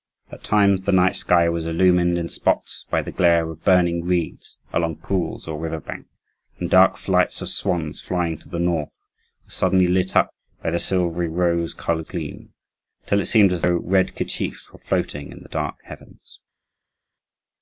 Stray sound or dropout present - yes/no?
no